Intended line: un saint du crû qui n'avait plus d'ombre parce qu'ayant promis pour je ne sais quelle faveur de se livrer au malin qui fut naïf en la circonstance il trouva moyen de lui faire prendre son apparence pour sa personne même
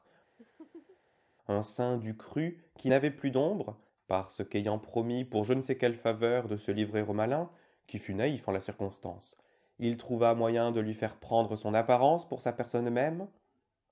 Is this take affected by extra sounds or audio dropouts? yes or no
yes